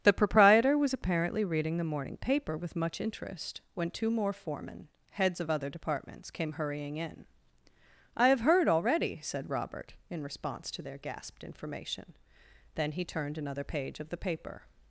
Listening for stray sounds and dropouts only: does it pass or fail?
pass